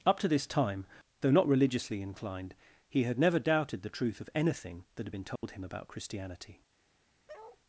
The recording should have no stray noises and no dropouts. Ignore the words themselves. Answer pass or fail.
fail